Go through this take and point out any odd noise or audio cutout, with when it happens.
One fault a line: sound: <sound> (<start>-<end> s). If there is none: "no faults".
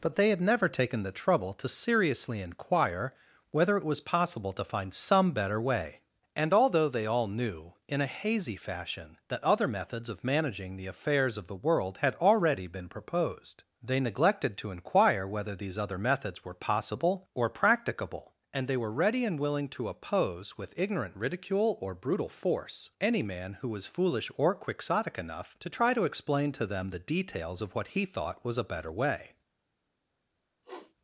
sound: sniff (30.6-30.9 s)